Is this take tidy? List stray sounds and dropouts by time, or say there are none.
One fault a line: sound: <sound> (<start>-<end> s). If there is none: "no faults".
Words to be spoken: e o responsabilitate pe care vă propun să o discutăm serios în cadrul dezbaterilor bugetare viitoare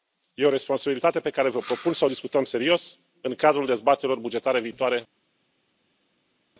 no faults